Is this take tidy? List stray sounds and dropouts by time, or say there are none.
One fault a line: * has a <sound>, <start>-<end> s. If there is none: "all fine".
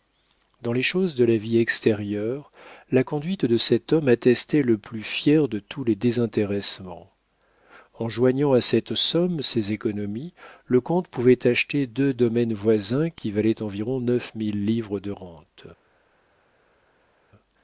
all fine